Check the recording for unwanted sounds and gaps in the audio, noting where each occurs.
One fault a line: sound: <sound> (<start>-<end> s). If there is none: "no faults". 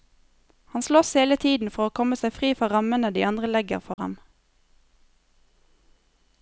sound: dropout (3.9-4.0 s)